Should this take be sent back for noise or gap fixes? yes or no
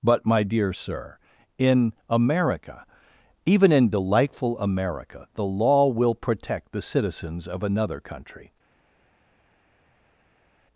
no